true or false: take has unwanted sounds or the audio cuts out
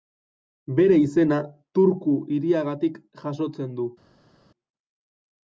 false